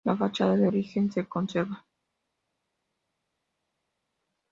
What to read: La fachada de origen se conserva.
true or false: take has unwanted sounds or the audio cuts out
false